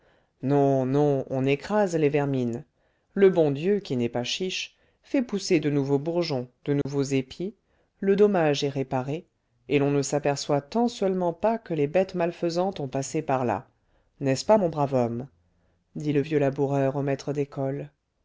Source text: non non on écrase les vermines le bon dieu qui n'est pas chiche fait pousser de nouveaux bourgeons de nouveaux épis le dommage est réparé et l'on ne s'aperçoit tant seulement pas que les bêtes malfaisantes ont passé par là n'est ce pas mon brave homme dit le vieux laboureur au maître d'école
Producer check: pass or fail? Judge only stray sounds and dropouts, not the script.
fail